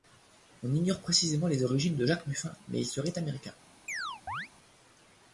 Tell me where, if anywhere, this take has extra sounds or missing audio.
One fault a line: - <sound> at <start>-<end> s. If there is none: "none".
- chirp at 3.9-4.5 s